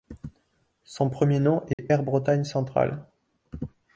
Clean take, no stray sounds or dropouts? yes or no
no